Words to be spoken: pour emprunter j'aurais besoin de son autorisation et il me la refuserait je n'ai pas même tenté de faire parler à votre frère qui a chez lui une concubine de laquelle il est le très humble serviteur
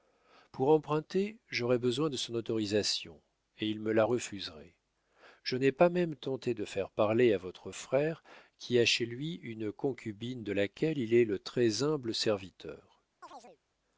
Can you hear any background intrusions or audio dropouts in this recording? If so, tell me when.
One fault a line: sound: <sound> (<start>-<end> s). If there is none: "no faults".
sound: chirp (13.2-13.6 s)